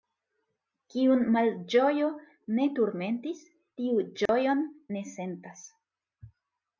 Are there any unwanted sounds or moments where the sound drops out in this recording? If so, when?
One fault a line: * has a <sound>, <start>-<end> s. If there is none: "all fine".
* has a dropout, 4.3-4.3 s